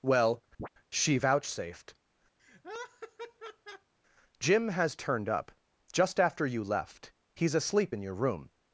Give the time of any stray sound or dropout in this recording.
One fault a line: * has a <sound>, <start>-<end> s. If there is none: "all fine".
* has a chirp, 0.6-0.7 s
* has a laugh, 2.4-3.9 s